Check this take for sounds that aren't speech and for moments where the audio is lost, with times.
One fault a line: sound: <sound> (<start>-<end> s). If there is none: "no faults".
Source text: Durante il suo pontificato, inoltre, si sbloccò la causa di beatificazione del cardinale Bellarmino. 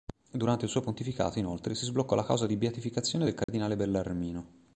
sound: dropout (3.4-3.5 s)